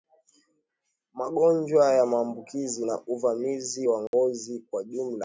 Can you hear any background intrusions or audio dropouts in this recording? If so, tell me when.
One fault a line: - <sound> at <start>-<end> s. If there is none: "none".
- dropout at 4.1-4.1 s